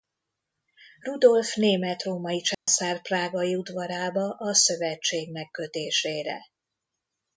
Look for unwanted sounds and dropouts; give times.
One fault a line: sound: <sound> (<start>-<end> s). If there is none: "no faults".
sound: dropout (2.5-2.7 s)